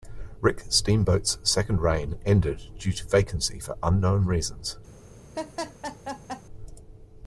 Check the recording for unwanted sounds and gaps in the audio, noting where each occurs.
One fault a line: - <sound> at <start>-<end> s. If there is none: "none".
- laugh at 5.3-6.4 s